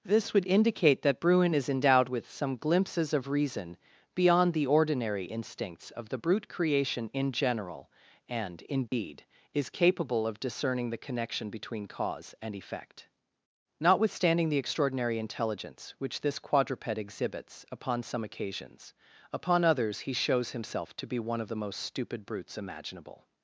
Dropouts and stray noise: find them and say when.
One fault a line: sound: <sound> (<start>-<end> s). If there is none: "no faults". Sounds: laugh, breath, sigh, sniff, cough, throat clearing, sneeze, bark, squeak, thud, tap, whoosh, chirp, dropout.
sound: dropout (8.9-8.9 s)